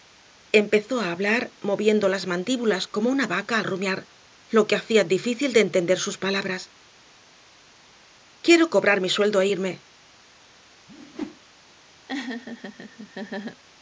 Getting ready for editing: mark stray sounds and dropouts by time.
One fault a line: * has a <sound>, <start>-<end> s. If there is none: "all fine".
* has a whoosh, 10.9-11.4 s
* has a laugh, 12.1-13.6 s